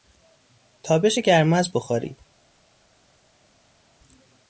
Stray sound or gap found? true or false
false